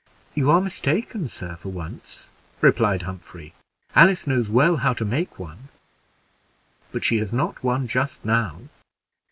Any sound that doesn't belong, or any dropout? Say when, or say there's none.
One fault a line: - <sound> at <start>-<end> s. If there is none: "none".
none